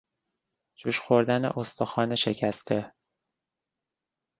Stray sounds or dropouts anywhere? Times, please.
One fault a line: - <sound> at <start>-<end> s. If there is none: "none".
none